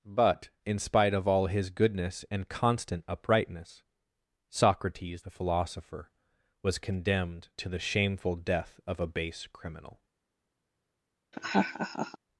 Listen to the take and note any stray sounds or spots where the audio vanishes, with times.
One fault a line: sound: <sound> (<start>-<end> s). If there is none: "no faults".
sound: laugh (11.3-12.2 s)